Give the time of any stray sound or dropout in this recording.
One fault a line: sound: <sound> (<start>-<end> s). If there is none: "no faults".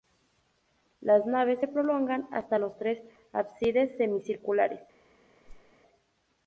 sound: whoosh (5.4-5.7 s)